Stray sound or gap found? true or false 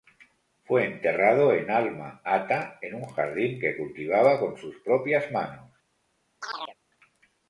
true